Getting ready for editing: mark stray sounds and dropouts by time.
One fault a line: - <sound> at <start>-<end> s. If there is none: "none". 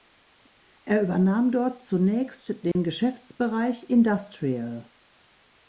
- dropout at 2.7-2.8 s